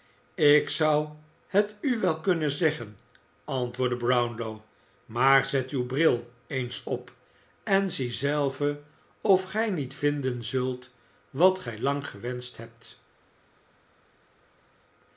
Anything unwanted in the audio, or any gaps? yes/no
no